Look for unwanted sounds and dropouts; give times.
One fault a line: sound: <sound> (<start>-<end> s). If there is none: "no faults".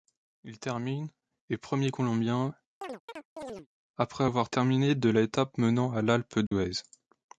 sound: chirp (2.8-3.7 s)
sound: dropout (6.5-6.5 s)